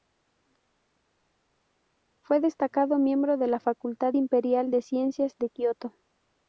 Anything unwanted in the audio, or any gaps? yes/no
no